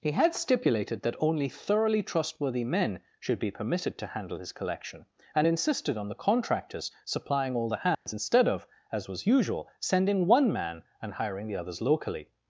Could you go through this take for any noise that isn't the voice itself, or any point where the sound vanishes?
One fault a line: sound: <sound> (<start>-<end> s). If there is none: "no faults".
sound: dropout (7.9-8.1 s)